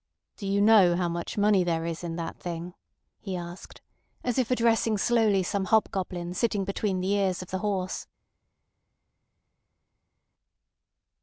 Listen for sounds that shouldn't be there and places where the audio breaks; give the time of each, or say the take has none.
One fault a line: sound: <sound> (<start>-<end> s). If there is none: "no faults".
no faults